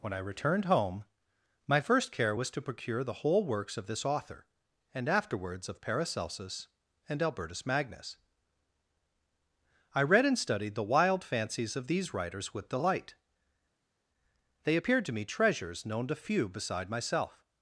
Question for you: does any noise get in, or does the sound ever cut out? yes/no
no